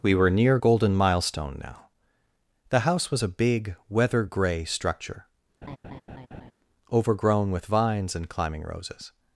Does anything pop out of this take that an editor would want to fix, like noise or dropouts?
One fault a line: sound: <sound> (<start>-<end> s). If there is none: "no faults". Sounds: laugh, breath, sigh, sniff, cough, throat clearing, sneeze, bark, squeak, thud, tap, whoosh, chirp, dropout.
sound: laugh (5.6-6.5 s)